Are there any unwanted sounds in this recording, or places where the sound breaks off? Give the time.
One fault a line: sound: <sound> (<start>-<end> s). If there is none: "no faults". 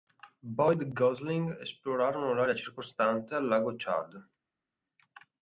no faults